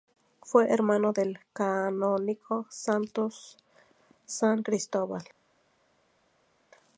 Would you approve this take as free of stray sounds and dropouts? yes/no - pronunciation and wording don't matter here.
yes